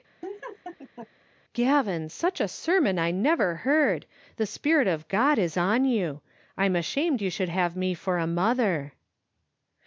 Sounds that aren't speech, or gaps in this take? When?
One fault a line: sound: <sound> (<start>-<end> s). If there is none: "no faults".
sound: laugh (0.2-1.1 s)